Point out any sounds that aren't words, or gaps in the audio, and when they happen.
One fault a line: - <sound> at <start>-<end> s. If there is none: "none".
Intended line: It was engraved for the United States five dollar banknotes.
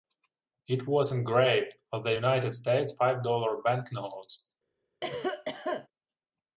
- cough at 5.0-5.9 s